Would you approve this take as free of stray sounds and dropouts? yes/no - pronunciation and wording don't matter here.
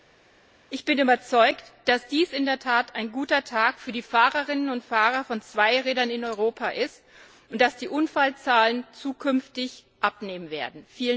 yes